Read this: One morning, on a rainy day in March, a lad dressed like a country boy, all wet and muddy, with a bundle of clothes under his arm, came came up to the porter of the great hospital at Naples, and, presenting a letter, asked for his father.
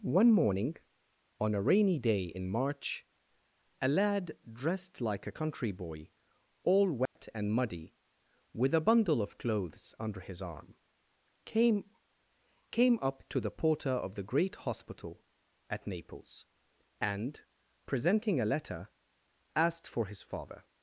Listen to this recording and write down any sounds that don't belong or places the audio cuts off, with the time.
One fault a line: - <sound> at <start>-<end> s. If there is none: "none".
- dropout at 7.1-7.2 s